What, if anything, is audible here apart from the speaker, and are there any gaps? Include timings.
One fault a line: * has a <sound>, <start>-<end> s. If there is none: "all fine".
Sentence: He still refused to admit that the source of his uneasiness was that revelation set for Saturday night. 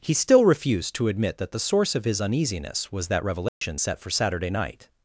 * has a dropout, 3.5-3.6 s